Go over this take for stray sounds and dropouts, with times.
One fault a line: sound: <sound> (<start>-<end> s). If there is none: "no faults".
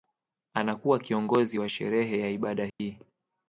sound: dropout (2.7-2.8 s)